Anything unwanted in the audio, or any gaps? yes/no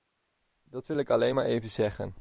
no